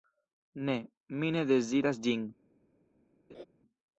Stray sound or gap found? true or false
true